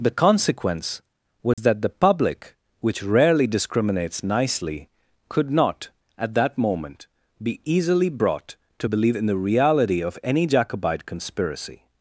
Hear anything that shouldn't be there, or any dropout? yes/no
yes